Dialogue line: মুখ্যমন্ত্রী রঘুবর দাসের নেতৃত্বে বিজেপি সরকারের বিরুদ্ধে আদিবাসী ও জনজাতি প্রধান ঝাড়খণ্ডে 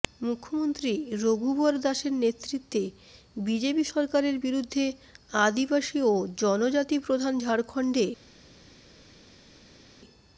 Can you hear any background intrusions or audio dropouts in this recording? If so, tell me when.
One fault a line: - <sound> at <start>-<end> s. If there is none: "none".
none